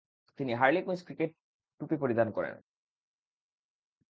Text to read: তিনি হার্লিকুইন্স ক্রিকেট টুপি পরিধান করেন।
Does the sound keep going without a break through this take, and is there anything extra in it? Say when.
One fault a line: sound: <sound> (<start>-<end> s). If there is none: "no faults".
no faults